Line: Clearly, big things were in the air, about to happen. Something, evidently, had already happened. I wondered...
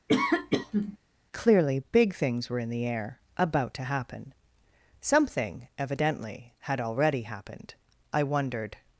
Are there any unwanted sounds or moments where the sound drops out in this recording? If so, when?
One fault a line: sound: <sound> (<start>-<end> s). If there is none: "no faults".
sound: sneeze (0.1-1.0 s)